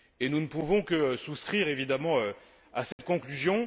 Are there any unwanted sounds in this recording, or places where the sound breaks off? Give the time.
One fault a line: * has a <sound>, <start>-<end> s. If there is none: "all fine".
* has a dropout, 2.9-3.0 s